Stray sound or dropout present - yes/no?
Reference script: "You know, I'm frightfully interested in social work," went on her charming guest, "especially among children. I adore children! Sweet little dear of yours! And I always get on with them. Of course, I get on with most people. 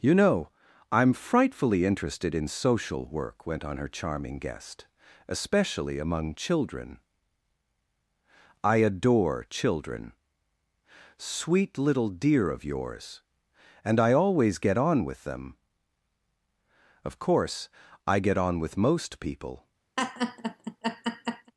yes